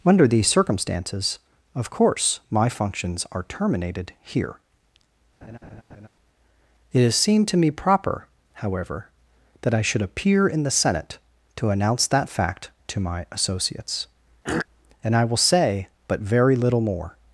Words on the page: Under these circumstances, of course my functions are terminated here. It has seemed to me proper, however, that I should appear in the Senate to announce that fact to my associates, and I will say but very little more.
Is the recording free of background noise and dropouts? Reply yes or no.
no